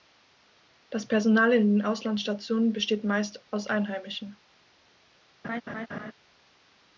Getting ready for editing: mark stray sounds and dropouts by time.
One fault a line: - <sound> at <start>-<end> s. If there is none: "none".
- laugh at 5.4-6.1 s